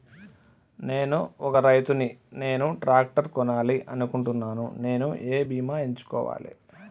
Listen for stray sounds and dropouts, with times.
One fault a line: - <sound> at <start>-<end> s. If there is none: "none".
none